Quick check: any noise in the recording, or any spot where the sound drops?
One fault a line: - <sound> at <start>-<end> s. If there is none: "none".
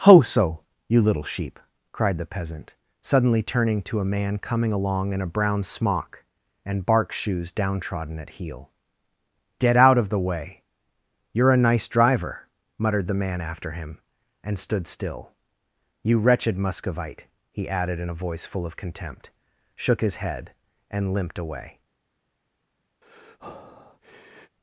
- breath at 23.0-24.6 s